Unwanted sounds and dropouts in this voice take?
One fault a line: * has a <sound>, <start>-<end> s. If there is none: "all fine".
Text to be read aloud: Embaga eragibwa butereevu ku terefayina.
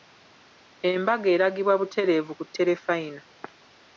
all fine